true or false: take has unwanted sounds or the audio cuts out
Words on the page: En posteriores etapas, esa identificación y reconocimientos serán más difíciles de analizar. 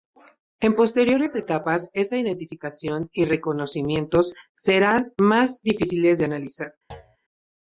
true